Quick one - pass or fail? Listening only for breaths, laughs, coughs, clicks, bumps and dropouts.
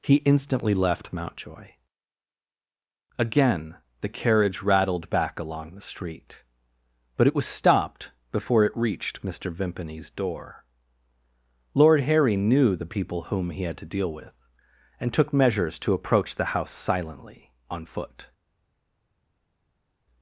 pass